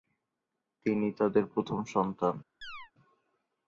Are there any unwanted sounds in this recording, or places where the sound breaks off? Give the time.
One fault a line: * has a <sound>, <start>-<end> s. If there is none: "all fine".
* has a chirp, 2.6-2.9 s